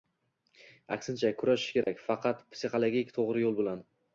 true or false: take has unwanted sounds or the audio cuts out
true